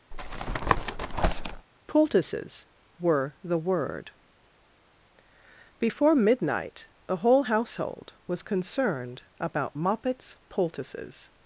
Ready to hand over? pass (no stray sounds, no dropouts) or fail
fail